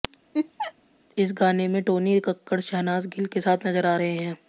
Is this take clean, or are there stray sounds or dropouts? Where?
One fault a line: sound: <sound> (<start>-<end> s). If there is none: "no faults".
sound: laugh (0.3-0.7 s)